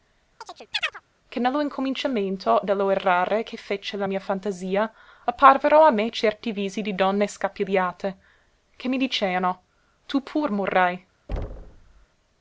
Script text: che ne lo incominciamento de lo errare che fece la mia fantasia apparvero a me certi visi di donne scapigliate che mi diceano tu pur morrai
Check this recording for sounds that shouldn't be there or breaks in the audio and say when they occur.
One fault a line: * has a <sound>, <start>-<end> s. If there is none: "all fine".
* has a chirp, 0.4-1.0 s
* has a thud, 11.3-12.1 s